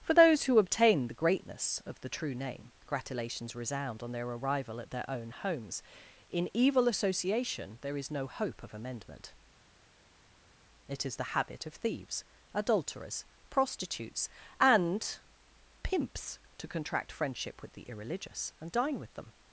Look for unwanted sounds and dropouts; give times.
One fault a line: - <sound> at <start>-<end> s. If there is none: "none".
none